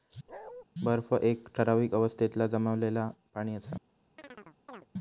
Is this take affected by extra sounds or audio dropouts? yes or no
yes